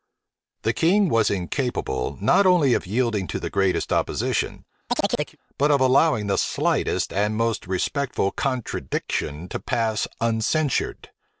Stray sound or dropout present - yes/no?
yes